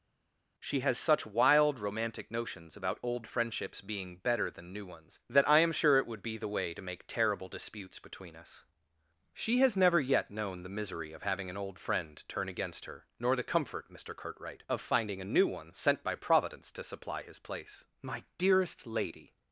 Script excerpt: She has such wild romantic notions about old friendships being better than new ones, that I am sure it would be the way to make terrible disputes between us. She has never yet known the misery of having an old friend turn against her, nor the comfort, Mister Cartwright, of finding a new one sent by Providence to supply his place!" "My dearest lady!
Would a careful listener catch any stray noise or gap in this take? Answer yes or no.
no